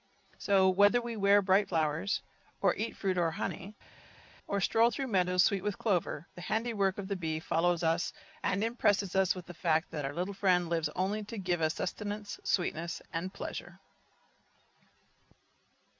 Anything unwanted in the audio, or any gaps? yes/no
no